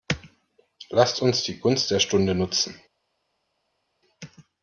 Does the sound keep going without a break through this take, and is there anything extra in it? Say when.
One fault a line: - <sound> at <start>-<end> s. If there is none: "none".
none